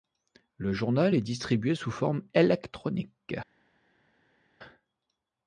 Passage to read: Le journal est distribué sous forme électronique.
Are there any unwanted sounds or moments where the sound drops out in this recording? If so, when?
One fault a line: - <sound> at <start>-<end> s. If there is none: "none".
none